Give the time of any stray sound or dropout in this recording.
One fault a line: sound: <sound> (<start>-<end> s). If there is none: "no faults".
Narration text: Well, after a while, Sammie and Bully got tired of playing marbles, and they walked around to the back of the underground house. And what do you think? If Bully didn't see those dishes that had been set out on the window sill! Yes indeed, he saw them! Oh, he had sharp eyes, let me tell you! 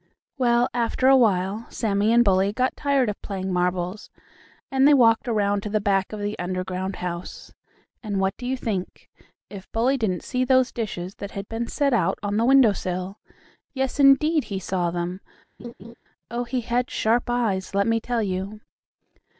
sound: laugh (15.6-15.9 s)